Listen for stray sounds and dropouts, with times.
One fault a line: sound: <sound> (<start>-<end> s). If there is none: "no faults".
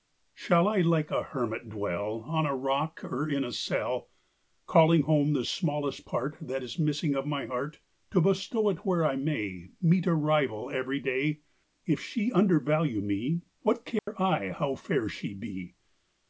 sound: dropout (14.0-14.1 s)